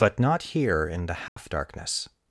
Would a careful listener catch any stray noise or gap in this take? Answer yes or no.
yes